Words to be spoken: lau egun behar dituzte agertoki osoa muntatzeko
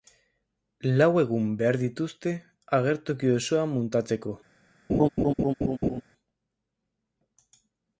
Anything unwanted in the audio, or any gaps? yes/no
yes